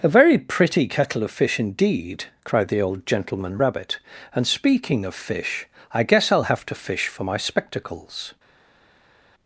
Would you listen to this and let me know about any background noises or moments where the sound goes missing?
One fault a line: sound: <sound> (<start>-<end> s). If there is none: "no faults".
no faults